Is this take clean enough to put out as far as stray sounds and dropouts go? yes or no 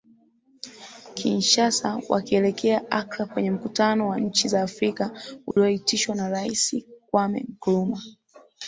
no